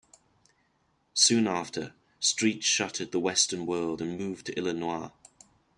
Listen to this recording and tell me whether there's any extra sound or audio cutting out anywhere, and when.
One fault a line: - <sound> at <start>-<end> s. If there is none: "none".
none